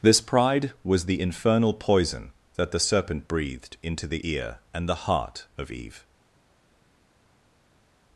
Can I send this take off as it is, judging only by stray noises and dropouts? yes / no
yes